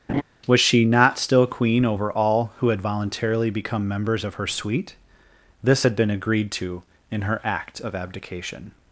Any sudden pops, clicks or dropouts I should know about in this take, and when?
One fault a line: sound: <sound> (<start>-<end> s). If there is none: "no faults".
sound: laugh (0.1-0.2 s)